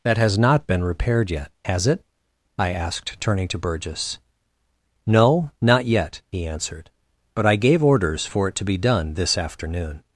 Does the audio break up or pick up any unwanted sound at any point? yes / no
no